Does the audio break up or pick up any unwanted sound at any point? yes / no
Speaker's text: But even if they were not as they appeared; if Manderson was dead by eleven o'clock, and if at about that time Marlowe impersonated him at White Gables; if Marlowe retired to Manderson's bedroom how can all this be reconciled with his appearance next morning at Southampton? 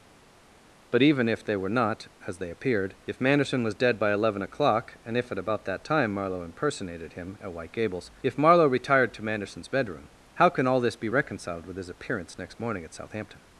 no